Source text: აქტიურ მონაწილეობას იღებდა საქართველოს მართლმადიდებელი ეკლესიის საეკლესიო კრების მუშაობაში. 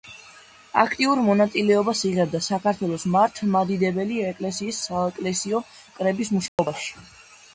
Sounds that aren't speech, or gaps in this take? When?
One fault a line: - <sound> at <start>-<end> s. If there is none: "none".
- dropout at 6.5-6.6 s